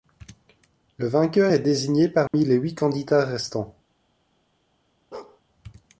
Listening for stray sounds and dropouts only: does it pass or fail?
fail